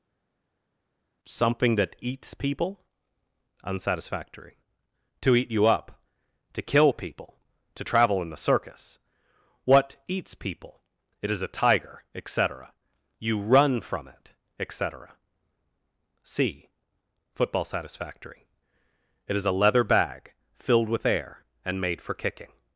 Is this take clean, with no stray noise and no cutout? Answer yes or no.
yes